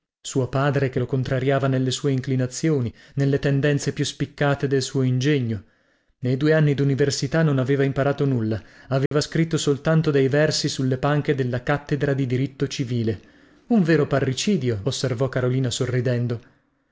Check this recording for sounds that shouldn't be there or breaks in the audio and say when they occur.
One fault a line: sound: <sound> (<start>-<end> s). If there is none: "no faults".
sound: dropout (9.1-9.1 s)